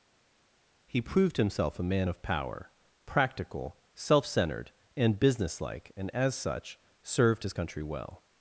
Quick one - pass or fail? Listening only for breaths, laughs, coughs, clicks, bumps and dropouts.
pass